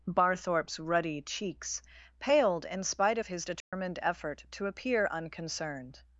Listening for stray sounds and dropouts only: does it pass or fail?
fail